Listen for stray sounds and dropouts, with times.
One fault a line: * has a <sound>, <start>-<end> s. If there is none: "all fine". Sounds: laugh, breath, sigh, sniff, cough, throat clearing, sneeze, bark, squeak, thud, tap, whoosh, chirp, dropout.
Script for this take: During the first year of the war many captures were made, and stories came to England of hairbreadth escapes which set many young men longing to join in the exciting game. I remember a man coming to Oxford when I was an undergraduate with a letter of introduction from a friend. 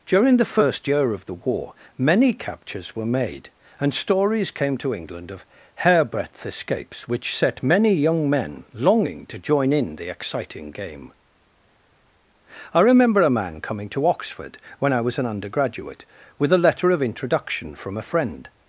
all fine